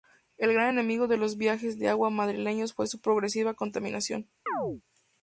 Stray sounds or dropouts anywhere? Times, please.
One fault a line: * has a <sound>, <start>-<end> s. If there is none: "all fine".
* has a chirp, 4.5-4.8 s